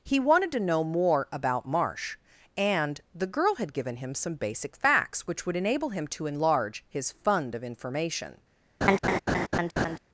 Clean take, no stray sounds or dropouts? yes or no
no